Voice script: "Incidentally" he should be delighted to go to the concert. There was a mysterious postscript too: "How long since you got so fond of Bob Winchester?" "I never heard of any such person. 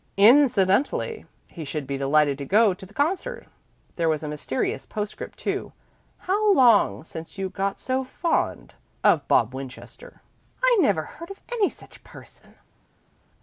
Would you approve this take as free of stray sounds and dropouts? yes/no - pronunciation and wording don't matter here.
yes